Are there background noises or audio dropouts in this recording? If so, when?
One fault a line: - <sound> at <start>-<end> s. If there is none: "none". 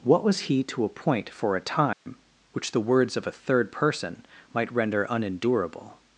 - dropout at 1.9-2.1 s